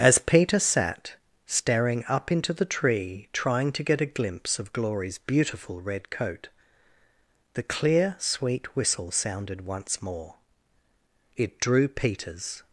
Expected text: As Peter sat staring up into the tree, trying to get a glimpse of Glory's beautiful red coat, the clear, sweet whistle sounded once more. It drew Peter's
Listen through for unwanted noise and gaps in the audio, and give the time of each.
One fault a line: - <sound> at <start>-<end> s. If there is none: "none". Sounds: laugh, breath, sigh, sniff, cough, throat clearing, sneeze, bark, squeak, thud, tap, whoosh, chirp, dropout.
none